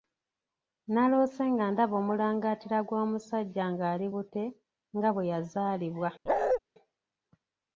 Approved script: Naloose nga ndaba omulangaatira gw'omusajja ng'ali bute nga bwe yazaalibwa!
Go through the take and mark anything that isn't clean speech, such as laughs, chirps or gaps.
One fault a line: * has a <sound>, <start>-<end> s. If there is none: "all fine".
* has a bark, 6.3-6.6 s